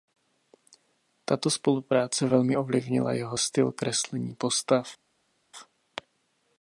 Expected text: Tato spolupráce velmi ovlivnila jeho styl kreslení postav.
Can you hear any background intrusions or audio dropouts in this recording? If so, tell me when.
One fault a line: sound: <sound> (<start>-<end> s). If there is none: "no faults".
no faults